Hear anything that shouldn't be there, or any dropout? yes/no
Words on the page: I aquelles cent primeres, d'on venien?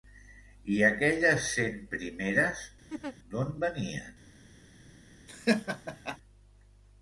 yes